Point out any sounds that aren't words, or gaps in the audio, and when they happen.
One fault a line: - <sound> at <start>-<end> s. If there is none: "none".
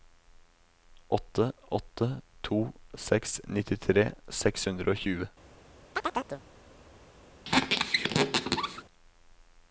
- chirp at 6.0-6.4 s
- squeak at 7.4-8.8 s